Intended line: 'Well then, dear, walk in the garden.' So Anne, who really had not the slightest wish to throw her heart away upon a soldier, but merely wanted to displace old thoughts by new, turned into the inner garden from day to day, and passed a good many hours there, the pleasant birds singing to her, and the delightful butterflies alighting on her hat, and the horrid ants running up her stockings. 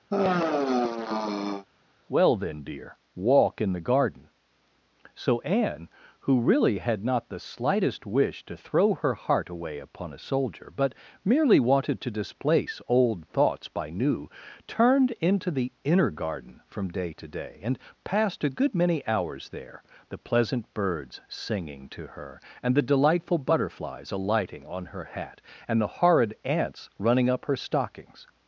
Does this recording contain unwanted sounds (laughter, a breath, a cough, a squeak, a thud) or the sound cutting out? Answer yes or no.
yes